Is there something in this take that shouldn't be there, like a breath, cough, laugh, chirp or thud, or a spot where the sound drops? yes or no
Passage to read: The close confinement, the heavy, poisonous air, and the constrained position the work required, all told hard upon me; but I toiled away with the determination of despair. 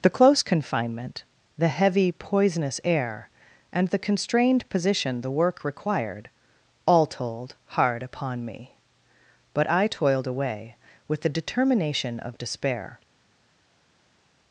no